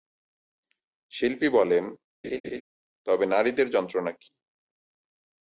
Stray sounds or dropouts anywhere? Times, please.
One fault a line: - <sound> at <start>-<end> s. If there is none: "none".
- laugh at 2.2-2.6 s